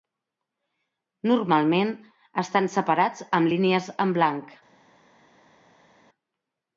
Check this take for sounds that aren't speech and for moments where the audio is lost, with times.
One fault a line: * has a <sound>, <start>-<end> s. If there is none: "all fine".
all fine